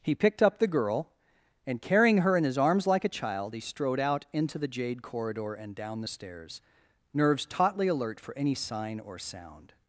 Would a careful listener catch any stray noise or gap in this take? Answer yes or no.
no